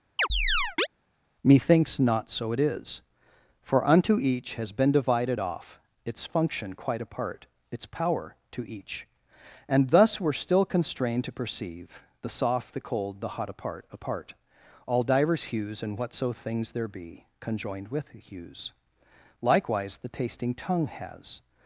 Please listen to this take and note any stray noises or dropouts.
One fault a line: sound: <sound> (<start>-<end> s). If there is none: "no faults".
sound: chirp (0.2-0.9 s)